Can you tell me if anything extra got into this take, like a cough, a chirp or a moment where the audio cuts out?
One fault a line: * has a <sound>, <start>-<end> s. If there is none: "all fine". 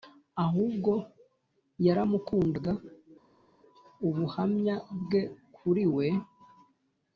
all fine